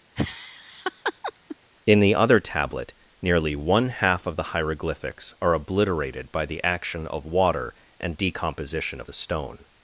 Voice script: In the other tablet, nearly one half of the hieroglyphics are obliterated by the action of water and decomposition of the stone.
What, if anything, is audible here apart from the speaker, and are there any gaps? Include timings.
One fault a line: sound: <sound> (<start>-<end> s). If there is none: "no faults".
sound: laugh (0.2-1.6 s)